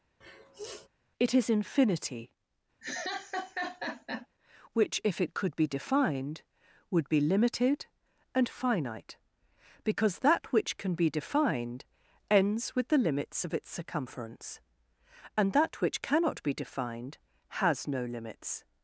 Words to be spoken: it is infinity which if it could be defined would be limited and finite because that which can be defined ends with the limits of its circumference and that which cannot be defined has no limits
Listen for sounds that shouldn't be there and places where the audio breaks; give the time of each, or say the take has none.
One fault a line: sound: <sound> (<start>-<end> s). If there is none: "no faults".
sound: sniff (0.2-0.9 s)
sound: laugh (2.8-4.3 s)